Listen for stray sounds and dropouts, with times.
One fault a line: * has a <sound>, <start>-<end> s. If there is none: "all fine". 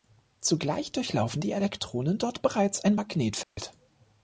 * has a dropout, 3.4-3.6 s